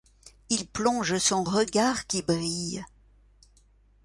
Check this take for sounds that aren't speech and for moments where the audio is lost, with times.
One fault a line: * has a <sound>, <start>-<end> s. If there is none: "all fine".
all fine